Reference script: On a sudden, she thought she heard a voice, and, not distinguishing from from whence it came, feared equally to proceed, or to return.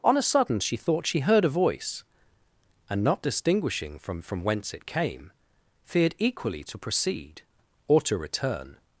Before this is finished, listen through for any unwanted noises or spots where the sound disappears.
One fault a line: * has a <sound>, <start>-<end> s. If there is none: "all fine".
all fine